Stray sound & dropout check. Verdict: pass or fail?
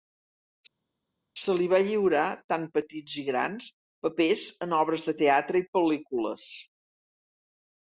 pass